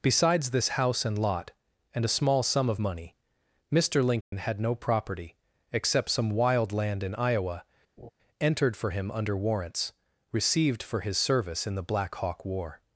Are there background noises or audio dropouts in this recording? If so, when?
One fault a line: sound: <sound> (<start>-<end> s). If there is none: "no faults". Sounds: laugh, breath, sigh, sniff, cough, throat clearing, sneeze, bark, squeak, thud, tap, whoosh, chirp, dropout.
sound: dropout (4.2-4.3 s)
sound: laugh (8.0-8.1 s)